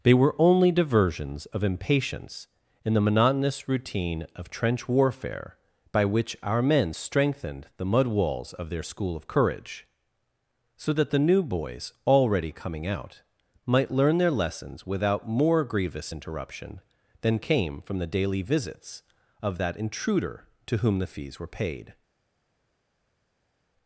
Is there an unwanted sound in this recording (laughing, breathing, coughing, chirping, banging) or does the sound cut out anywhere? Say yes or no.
no